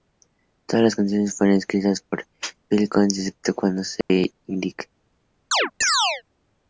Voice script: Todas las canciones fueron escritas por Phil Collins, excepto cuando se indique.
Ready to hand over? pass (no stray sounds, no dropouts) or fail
fail